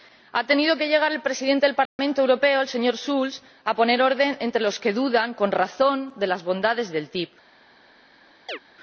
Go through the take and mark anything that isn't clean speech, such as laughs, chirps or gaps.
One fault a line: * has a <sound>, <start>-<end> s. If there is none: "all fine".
* has a dropout, 1.9-2.0 s
* has a chirp, 8.5-8.6 s